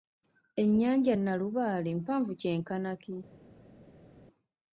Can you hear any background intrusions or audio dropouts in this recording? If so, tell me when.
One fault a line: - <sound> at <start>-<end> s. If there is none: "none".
none